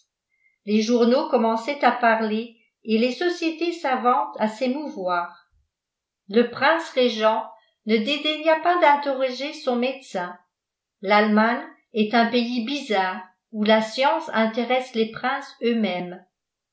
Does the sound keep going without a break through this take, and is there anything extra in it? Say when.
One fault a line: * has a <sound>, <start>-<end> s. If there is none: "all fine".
all fine